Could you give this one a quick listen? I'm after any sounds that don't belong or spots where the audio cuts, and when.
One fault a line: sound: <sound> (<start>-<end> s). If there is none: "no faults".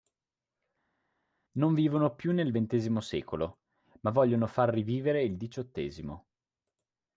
no faults